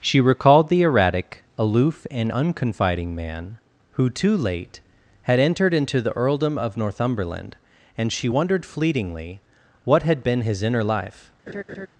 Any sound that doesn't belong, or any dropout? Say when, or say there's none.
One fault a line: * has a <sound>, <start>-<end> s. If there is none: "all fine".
* has a laugh, 11.5-11.9 s